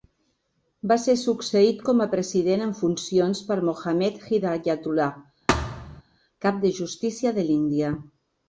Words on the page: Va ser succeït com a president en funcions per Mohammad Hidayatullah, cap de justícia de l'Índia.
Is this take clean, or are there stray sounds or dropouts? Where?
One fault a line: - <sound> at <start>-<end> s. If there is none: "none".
- thud at 5.5-6.0 s